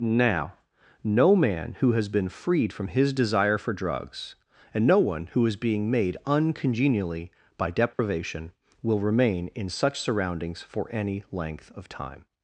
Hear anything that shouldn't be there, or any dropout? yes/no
yes